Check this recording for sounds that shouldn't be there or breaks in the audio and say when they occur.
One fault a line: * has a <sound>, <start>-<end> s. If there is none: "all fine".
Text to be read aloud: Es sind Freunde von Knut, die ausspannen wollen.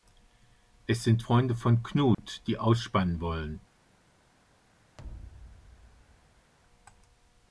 * has a dropout, 2.1-2.2 s
* has a thud, 5.0-6.5 s